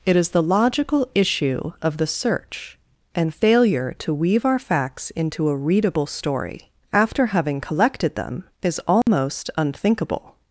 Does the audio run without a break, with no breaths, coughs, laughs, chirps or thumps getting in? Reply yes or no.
no